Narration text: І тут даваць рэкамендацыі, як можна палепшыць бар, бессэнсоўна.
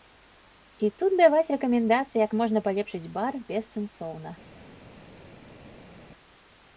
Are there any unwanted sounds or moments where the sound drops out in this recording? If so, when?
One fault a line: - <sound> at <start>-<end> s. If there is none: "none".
none